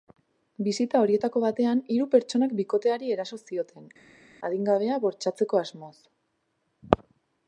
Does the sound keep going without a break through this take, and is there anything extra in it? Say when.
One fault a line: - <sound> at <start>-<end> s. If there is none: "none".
none